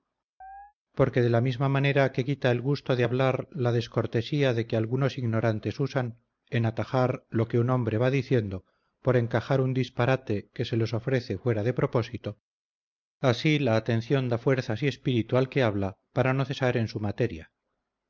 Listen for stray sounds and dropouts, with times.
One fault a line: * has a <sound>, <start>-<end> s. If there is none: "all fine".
* has a chirp, 0.4-0.7 s